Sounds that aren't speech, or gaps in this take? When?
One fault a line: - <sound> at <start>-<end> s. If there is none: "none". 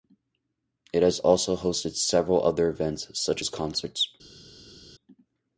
none